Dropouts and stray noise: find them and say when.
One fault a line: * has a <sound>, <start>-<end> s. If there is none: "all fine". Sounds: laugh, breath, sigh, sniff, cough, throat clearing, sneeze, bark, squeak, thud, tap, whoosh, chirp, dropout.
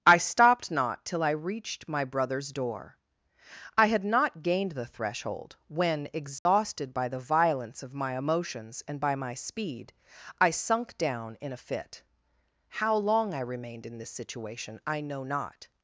* has a dropout, 6.4-6.5 s